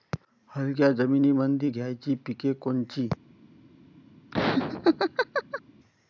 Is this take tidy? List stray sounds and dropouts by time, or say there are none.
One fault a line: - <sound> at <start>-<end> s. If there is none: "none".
- laugh at 4.3-5.6 s